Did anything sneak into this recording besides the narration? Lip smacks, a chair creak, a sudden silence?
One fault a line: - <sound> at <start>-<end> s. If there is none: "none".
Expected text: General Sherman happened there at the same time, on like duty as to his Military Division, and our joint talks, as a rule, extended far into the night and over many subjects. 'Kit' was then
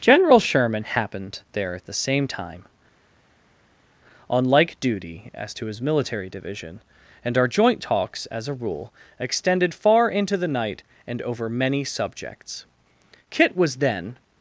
none